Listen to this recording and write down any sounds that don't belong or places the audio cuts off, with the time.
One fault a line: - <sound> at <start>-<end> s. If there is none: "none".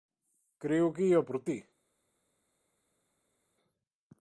none